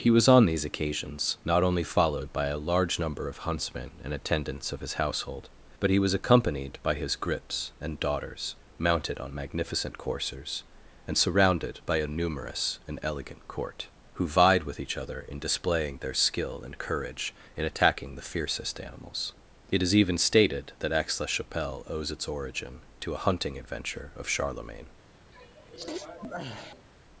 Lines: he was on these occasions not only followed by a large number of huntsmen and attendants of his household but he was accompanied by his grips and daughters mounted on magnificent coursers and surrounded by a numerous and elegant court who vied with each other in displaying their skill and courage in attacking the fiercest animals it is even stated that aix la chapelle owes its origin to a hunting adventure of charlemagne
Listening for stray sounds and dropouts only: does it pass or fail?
fail